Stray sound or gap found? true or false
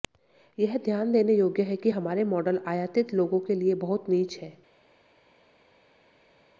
false